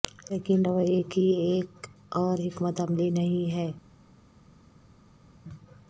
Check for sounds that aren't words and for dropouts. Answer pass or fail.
pass